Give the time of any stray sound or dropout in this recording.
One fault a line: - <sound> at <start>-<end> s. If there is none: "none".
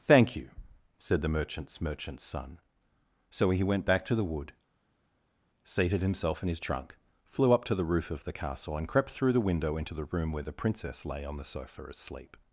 none